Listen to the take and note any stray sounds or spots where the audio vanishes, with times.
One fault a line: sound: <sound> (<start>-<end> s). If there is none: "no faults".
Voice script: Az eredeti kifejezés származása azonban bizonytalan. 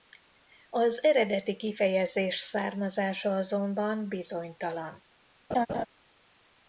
sound: laugh (5.5-5.9 s)